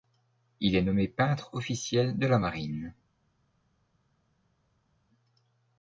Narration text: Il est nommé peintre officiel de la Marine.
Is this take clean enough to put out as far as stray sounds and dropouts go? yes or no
yes